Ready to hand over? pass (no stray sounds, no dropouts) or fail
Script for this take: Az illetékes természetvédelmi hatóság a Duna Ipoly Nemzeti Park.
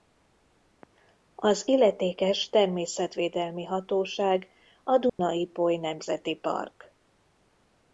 fail